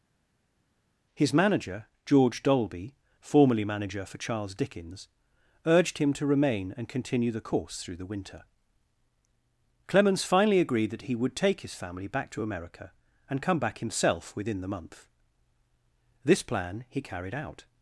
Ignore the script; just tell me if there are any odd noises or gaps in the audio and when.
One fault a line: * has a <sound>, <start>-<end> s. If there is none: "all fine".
all fine